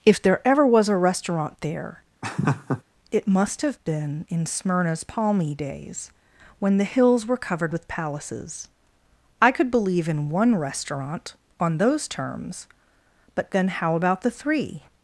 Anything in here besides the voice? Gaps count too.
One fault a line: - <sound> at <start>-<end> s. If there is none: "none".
- laugh at 2.2-2.8 s